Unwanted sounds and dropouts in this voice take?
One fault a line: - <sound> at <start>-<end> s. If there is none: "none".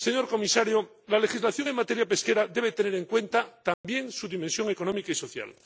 - dropout at 3.7-3.8 s